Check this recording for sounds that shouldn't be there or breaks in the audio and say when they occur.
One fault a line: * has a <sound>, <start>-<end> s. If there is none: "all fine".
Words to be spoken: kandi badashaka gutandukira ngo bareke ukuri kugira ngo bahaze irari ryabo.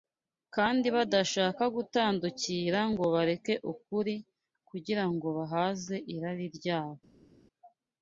all fine